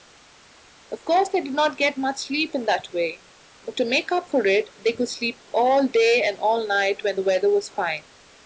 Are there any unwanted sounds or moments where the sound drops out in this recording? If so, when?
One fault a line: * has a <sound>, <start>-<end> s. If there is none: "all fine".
all fine